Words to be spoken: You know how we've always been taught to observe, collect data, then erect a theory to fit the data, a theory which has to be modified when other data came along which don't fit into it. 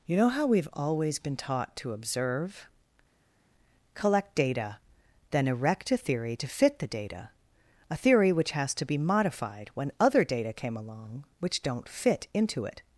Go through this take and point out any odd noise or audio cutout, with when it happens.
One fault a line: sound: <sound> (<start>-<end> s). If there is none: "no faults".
no faults